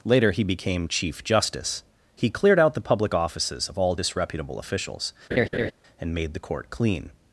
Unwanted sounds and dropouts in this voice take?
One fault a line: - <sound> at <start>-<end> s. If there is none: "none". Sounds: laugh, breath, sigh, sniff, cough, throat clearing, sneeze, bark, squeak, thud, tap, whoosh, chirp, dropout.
- laugh at 5.3-5.7 s